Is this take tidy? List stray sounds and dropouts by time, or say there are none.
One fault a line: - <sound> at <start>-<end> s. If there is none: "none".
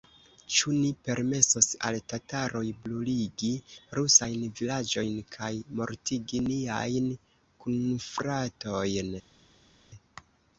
none